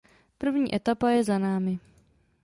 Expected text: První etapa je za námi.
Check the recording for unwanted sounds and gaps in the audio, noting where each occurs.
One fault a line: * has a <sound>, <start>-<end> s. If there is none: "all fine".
all fine